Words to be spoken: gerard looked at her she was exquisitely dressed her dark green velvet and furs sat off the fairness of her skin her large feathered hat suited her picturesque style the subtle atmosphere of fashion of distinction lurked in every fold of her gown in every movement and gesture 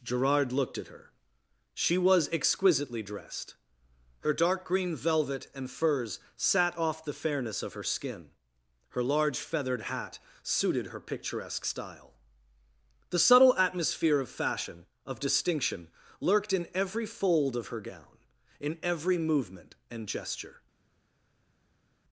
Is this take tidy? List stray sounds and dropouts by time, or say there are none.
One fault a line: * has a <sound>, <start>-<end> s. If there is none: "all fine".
all fine